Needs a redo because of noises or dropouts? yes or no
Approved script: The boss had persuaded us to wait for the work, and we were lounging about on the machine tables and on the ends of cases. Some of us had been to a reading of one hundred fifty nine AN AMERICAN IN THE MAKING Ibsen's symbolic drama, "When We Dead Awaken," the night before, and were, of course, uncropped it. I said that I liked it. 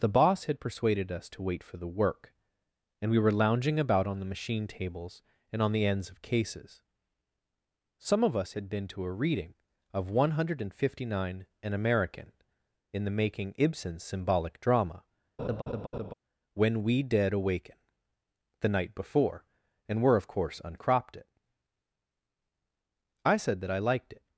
yes